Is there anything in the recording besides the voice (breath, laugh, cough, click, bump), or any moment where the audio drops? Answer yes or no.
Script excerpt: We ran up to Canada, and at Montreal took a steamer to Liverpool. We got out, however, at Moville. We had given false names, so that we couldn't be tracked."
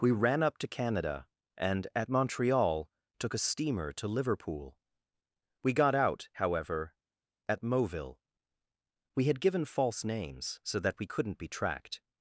no